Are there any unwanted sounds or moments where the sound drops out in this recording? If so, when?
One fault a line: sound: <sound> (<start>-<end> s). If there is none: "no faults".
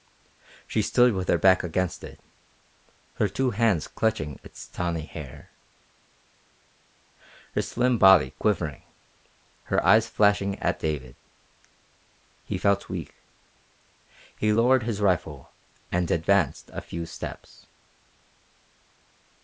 no faults